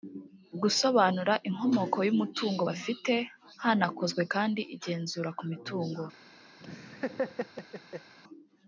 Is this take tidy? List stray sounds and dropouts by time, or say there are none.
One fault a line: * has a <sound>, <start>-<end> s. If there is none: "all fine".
* has a laugh, 6.6-8.1 s